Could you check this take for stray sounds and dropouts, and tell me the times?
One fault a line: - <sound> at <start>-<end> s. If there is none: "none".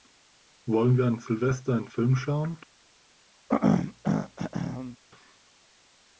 - throat clearing at 3.5-5.0 s